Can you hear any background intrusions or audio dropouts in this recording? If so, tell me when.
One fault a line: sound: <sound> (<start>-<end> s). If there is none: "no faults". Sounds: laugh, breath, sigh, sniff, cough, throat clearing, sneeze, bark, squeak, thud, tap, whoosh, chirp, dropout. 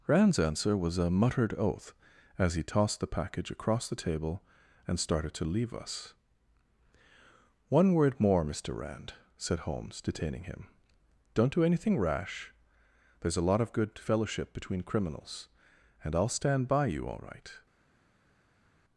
no faults